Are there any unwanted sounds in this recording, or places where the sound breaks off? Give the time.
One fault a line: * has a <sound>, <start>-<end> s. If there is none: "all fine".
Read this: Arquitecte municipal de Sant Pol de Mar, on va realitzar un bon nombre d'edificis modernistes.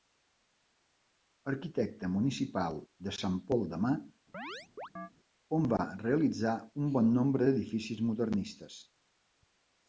* has a chirp, 4.3-5.1 s